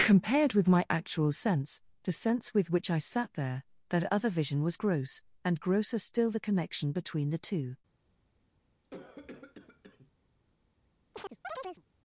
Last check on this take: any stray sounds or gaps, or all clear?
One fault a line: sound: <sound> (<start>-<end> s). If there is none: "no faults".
sound: cough (8.8-10.1 s)
sound: chirp (11.1-11.8 s)